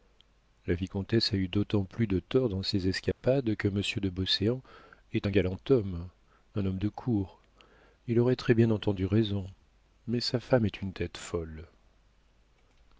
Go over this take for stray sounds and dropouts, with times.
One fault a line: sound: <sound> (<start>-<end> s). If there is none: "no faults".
sound: dropout (3.1-3.2 s)